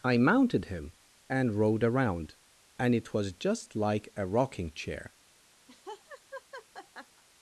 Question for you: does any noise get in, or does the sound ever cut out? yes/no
yes